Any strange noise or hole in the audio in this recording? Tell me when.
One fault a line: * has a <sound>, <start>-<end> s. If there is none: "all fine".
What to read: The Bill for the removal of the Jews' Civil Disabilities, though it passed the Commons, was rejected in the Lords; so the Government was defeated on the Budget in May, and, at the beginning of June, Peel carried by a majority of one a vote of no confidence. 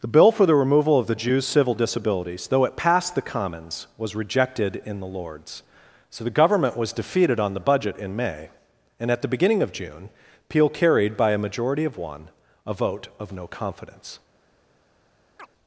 * has a chirp, 15.4-15.5 s